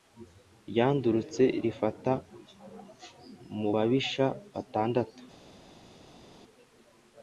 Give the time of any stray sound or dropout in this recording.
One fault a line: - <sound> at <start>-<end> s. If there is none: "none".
none